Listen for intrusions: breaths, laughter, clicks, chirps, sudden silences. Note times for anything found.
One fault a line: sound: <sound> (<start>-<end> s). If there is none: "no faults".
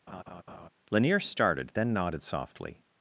sound: laugh (0.1-0.7 s)